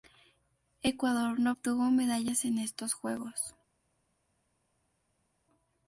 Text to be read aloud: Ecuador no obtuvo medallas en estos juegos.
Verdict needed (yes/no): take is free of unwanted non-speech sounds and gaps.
yes